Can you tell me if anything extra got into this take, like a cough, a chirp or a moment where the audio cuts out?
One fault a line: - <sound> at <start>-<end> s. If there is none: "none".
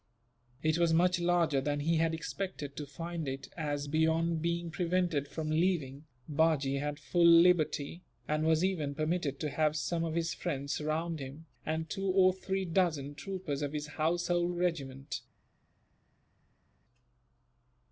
none